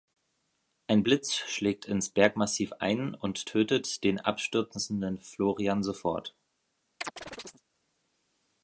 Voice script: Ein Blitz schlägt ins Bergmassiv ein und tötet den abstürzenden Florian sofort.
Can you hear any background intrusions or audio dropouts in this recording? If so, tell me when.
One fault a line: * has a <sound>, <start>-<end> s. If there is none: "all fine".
* has a chirp, 7.0-7.6 s